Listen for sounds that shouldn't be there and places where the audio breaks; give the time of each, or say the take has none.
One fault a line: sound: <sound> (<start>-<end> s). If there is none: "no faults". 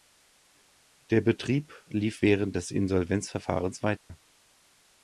sound: dropout (4.0-4.1 s)